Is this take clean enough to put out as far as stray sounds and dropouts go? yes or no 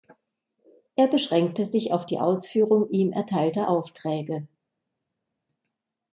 yes